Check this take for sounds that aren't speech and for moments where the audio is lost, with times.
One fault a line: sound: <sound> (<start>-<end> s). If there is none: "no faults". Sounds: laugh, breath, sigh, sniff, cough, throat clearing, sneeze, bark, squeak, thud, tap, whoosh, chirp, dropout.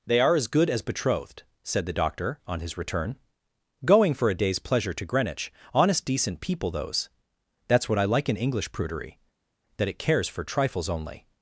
no faults